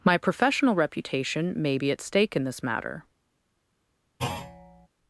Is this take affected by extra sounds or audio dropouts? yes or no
yes